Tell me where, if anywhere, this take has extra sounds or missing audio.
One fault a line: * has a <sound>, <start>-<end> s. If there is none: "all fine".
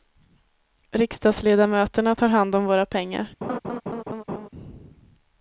* has a laugh, 3.4-4.5 s